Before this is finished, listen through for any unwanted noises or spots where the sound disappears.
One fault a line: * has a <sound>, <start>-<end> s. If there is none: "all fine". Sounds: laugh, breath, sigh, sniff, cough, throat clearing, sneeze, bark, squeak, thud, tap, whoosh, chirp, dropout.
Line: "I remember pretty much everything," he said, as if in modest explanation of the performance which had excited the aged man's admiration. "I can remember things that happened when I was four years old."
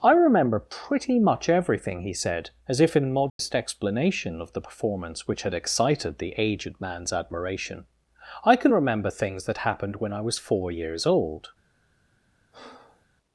* has a dropout, 3.3-3.4 s
* has a breath, 12.5-13.1 s